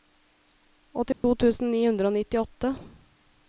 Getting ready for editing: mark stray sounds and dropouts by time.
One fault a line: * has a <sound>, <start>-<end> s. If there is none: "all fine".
* has a dropout, 1.1-1.2 s